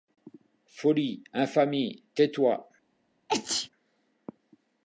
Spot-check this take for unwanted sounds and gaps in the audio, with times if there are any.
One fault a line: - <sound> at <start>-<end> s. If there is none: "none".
- sneeze at 3.3-3.7 s